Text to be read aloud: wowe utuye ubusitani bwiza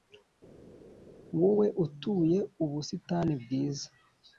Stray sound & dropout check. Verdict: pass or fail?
pass